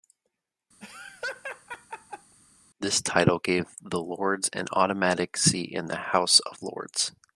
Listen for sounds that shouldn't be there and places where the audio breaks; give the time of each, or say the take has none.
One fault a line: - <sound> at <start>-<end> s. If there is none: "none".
- laugh at 0.8-2.3 s